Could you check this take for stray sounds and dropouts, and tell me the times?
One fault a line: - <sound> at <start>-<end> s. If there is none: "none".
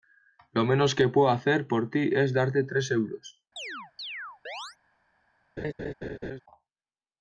- chirp at 3.6-4.8 s
- laugh at 5.6-6.4 s